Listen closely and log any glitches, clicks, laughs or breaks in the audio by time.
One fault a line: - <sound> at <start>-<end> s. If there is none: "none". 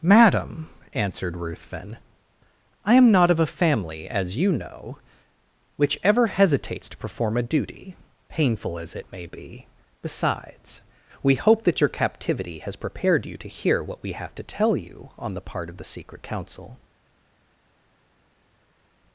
none